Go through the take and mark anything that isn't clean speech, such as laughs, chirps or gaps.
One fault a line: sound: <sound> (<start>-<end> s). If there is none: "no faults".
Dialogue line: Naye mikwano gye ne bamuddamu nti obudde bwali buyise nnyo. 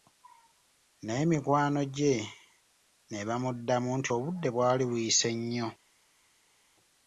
no faults